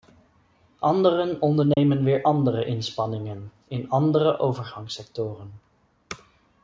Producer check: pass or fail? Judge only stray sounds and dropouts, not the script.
fail